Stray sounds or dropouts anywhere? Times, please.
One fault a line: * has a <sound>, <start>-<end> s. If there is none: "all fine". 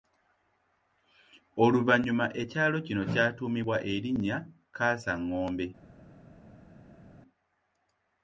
all fine